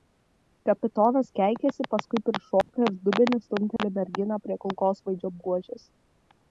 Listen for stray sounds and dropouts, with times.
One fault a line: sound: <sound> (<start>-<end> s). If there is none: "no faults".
sound: dropout (2.6-2.7 s)
sound: dropout (3.8-3.8 s)